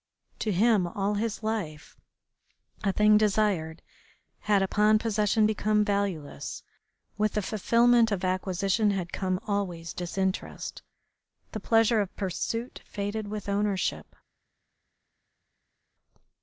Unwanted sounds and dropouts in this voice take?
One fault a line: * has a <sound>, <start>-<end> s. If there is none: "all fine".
all fine